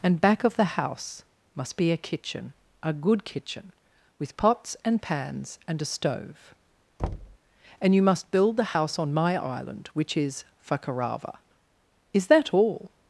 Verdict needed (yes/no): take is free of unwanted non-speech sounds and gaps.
no